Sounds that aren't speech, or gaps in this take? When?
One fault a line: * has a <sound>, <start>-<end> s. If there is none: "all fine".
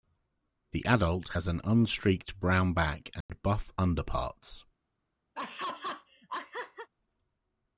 * has a dropout, 3.2-3.3 s
* has a laugh, 5.3-6.9 s